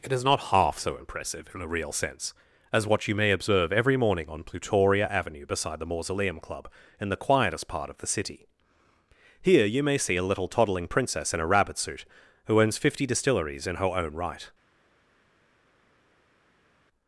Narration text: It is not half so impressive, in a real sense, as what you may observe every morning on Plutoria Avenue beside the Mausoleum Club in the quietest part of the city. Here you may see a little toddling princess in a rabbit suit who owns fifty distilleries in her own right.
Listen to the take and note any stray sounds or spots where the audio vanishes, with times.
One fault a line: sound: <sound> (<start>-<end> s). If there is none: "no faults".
no faults